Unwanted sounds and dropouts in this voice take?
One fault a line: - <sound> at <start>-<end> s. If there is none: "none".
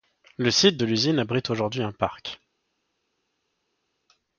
none